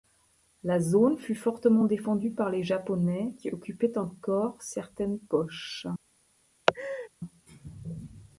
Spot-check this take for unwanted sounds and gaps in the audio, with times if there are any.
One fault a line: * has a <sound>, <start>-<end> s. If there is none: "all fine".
* has a laugh, 6.7-7.1 s